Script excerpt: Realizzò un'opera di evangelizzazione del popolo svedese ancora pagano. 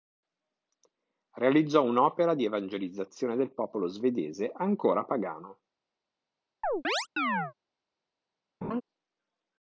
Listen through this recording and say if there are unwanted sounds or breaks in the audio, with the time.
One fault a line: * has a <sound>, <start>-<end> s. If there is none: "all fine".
* has a chirp, 6.6-7.5 s
* has a laugh, 8.6-8.8 s